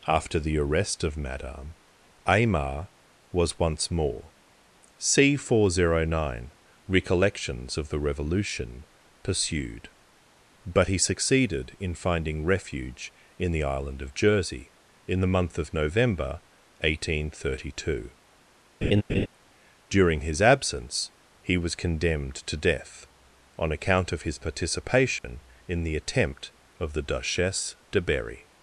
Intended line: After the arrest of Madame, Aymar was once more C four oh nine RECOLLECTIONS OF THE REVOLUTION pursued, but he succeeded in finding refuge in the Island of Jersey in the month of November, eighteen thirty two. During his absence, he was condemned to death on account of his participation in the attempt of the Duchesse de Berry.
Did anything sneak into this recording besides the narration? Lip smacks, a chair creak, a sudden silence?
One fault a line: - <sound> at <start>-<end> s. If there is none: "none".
- laugh at 18.8-19.3 s
- dropout at 25.2-25.2 s